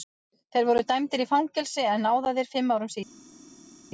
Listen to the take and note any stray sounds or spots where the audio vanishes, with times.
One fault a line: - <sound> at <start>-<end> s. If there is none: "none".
none